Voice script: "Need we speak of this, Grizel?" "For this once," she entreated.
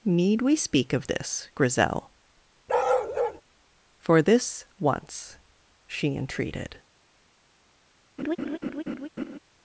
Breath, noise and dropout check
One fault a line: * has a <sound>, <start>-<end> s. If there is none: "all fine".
* has a bark, 2.7-3.4 s
* has a laugh, 8.2-9.4 s